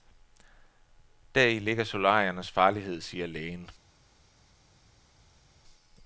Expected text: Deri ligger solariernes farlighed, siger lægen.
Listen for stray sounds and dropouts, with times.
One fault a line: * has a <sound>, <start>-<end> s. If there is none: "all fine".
all fine